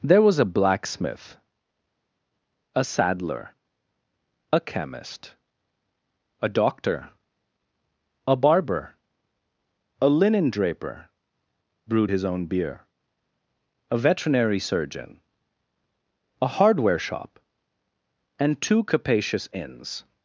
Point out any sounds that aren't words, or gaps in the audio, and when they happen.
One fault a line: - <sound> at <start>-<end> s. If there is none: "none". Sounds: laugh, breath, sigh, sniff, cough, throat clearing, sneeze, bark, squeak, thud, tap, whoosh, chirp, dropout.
none